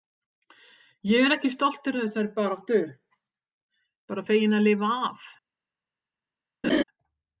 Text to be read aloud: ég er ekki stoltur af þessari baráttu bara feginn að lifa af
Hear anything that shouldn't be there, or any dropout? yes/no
yes